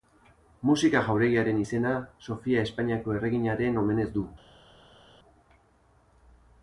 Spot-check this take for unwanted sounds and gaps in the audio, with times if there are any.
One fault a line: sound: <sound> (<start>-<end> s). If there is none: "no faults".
no faults